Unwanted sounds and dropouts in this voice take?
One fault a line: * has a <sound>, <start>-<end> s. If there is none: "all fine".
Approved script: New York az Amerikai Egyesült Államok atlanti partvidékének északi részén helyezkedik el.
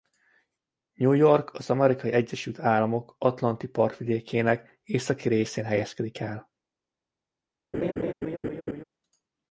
* has a laugh, 7.7-8.8 s